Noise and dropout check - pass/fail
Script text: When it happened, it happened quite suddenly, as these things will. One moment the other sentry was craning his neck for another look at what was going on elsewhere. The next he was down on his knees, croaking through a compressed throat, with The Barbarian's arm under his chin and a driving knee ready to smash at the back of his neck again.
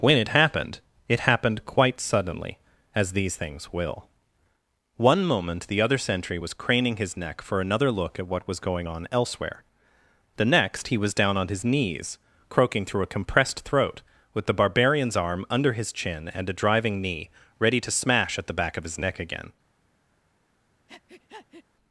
fail